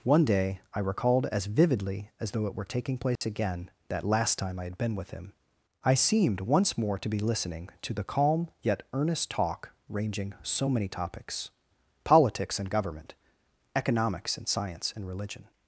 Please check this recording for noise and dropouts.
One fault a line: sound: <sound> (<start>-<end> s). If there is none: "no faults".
sound: dropout (3.2-3.2 s)